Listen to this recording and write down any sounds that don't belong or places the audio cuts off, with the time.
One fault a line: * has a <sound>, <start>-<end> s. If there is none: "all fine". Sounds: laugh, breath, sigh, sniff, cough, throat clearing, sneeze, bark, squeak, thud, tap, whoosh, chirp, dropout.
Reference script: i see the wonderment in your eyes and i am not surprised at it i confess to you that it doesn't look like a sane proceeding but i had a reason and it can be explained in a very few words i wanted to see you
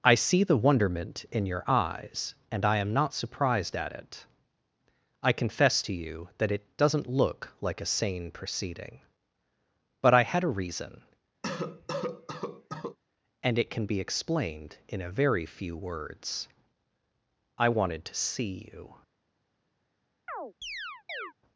* has a cough, 11.4-13.0 s
* has a chirp, 20.3-21.3 s